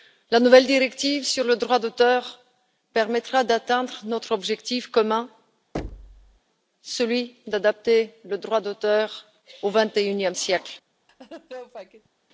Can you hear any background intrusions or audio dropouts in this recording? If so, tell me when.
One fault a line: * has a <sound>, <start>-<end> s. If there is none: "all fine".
* has a thud, 5.7-6.4 s
* has a laugh, 11.1-12.1 s